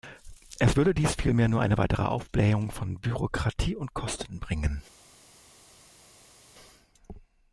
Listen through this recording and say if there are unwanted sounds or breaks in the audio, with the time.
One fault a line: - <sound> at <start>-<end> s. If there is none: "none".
none